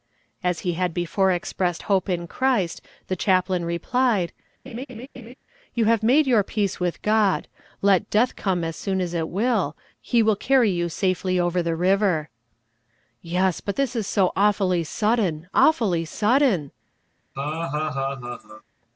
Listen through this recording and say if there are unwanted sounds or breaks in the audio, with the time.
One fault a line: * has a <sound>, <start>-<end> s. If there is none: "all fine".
* has a laugh, 4.7-5.3 s
* has a laugh, 17.4-18.6 s